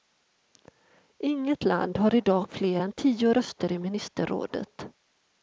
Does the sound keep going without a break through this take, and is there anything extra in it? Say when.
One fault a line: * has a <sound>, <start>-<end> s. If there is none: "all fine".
all fine